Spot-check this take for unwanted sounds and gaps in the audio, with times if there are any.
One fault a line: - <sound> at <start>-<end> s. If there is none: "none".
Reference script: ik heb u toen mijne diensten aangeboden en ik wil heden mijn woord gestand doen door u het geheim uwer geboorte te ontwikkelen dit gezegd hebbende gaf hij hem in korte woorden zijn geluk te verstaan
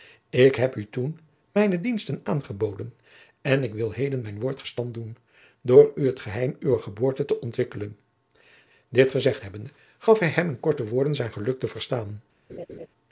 - laugh at 12.5-12.9 s